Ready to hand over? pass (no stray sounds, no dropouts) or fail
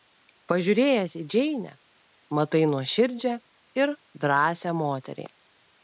pass